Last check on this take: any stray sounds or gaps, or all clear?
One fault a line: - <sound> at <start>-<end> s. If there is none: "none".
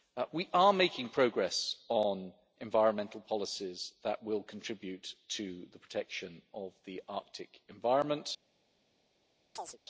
- chirp at 9.6-9.8 s